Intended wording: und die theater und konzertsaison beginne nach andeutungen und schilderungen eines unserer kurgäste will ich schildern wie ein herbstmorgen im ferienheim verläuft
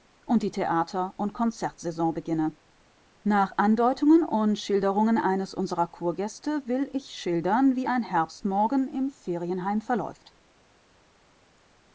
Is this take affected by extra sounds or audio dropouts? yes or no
no